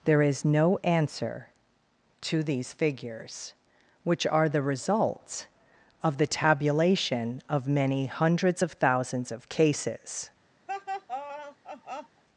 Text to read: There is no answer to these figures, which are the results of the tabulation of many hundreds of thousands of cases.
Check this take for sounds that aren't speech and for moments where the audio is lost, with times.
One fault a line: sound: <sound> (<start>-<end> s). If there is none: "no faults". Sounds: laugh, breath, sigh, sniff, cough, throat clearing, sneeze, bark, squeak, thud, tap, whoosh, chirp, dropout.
sound: laugh (10.7-12.2 s)